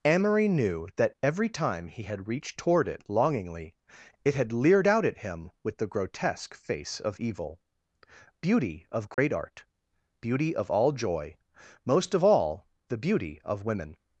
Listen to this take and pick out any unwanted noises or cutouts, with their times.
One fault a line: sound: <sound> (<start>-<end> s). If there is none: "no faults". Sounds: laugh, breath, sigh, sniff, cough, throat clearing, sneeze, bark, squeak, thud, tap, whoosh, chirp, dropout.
sound: dropout (9.1-9.2 s)